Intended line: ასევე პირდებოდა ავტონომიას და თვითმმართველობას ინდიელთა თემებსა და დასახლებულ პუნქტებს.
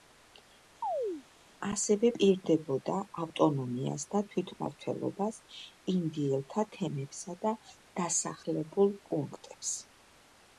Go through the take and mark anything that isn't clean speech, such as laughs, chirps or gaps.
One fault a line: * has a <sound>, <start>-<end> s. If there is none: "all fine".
* has a chirp, 0.8-1.2 s